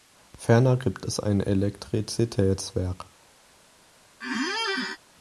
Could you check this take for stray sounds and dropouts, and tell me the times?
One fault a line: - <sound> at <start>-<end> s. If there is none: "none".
- squeak at 4.2-5.0 s